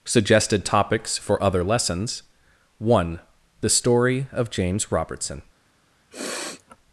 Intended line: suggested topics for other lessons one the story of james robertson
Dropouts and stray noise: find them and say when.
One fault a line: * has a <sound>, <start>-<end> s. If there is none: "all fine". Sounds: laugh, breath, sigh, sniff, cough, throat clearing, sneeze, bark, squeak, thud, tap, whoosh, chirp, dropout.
* has a sniff, 6.1-6.8 s